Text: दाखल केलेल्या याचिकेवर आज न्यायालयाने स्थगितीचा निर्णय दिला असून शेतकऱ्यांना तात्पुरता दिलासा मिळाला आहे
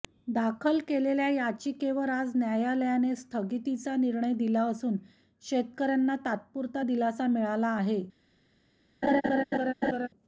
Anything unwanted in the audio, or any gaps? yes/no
yes